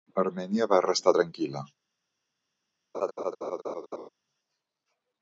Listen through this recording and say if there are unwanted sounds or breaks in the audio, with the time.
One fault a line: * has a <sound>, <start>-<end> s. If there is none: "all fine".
* has a laugh, 2.9-4.1 s